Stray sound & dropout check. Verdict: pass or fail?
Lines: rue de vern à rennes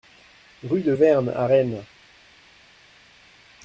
pass